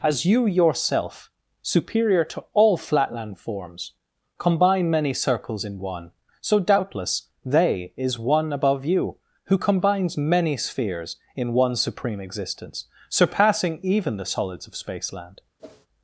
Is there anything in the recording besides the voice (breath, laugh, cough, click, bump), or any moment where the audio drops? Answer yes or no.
yes